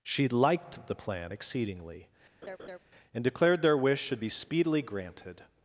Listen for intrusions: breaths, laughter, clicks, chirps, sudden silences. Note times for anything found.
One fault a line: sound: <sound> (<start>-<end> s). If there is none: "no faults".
sound: laugh (2.4-2.8 s)